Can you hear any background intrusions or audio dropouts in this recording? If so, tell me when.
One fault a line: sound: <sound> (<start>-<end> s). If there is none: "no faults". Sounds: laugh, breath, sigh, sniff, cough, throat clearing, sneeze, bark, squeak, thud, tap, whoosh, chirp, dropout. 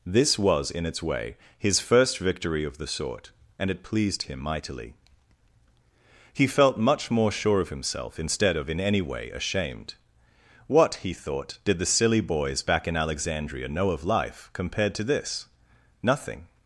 no faults